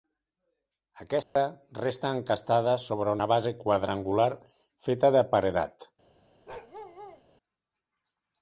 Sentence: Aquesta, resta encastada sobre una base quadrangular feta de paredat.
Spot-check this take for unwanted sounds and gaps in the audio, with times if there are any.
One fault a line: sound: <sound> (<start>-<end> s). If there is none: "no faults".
sound: dropout (1.2-1.4 s)
sound: bark (6.5-7.2 s)